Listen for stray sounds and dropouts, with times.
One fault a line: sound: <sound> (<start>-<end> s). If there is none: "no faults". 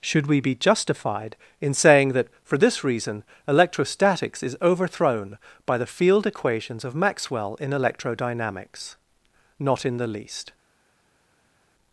no faults